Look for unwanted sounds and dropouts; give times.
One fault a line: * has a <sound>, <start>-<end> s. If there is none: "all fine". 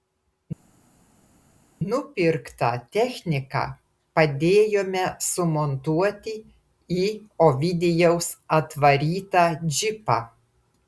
all fine